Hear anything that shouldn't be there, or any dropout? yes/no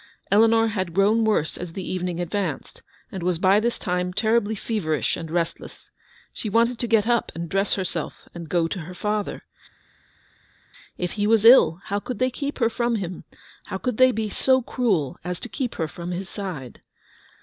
no